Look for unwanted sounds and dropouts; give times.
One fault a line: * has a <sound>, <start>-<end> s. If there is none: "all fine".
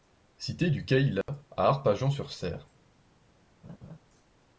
* has a dropout, 1.2-1.3 s
* has a laugh, 3.6-4.0 s